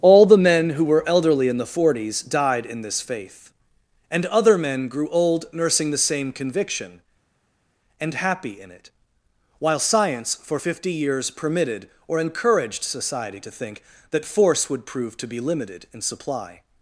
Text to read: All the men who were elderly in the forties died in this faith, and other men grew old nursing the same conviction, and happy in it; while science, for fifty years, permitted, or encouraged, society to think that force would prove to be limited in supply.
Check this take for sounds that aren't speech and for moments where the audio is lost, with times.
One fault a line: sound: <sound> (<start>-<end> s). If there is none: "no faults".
no faults